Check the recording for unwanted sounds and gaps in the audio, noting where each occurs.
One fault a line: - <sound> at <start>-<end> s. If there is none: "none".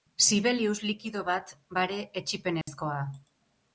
- dropout at 2.6-2.7 s